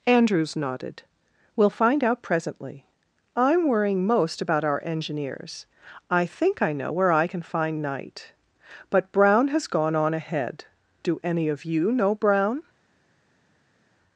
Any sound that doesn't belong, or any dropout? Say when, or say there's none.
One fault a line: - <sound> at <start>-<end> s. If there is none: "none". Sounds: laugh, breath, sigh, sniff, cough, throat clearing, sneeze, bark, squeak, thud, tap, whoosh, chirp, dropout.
none